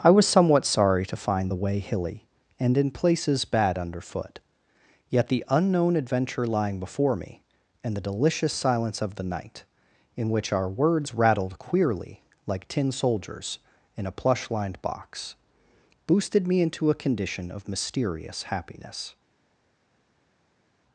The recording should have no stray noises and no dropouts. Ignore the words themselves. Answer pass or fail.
pass